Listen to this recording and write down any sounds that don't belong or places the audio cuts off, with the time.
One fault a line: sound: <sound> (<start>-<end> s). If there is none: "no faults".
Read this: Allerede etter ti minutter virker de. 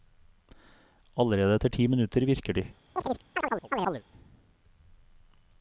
sound: chirp (3.0-4.0 s)